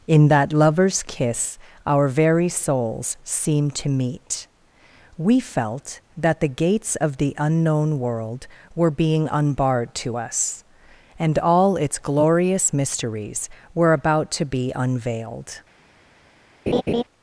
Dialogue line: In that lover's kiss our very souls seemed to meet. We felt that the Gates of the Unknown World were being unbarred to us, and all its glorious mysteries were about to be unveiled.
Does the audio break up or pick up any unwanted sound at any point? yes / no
yes